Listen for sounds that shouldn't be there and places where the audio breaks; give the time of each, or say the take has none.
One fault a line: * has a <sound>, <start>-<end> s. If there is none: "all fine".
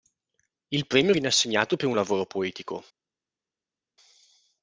all fine